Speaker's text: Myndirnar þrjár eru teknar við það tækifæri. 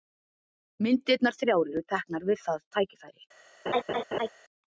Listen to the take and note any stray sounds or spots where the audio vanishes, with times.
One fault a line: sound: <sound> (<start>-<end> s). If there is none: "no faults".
sound: laugh (3.7-4.3 s)